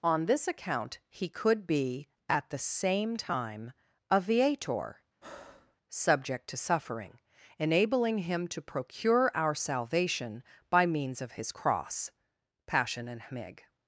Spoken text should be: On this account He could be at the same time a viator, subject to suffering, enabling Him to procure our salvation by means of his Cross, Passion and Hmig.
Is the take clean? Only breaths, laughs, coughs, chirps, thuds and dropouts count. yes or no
no